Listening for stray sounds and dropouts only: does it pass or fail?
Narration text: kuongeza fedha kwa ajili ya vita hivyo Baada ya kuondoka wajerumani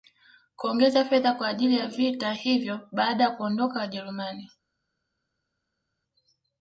pass